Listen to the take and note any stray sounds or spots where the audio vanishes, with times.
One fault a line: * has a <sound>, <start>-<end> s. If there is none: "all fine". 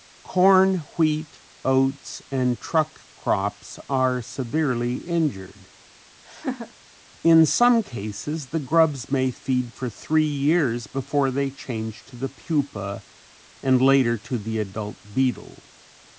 * has a laugh, 6.3-6.7 s